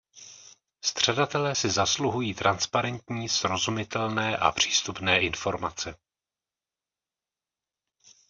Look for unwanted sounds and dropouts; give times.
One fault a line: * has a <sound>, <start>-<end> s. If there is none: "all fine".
all fine